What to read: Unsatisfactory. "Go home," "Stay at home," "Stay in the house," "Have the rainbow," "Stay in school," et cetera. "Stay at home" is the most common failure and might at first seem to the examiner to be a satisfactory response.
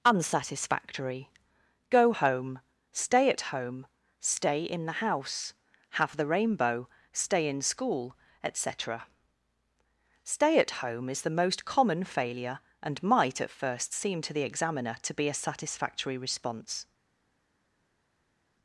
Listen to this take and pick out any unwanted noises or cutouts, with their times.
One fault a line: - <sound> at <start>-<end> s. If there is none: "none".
none